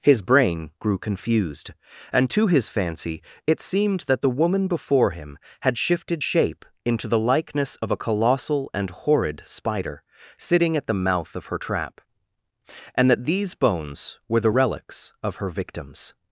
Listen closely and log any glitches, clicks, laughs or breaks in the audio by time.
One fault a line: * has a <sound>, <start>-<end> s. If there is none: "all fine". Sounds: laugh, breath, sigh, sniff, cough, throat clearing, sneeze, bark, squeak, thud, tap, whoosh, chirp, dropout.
all fine